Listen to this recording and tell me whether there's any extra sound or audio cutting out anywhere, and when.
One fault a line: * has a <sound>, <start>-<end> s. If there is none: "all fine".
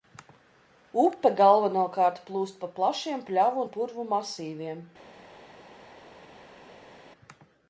all fine